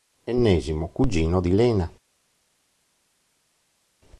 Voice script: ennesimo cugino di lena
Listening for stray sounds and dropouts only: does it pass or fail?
pass